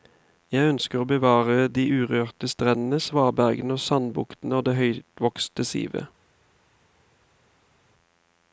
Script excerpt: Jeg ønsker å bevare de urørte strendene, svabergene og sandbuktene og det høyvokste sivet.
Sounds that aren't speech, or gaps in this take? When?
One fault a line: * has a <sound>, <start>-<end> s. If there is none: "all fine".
all fine